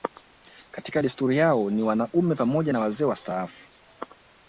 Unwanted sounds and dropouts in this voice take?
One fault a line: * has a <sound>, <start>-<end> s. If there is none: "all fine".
all fine